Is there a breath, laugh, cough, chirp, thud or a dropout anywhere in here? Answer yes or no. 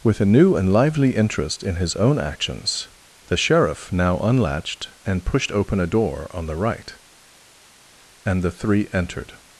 no